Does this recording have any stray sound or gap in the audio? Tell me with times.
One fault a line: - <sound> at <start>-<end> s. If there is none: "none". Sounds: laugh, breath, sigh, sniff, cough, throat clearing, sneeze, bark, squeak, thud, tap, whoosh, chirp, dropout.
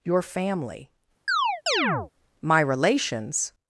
- chirp at 1.3-2.1 s